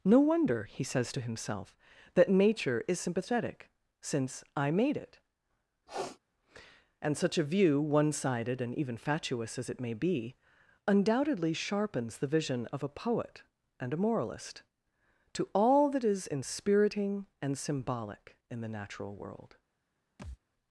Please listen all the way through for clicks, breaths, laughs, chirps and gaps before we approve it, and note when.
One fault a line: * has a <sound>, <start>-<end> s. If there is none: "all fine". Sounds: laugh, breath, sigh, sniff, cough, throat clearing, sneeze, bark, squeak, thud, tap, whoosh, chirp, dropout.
* has a sniff, 5.9-6.2 s
* has a thud, 20.2-20.4 s